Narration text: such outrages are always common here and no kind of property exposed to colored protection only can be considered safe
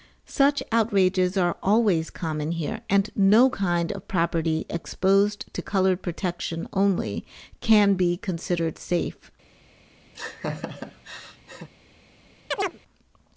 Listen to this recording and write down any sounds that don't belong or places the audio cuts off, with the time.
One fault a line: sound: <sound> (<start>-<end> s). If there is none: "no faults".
sound: laugh (10.1-11.7 s)
sound: chirp (12.5-12.8 s)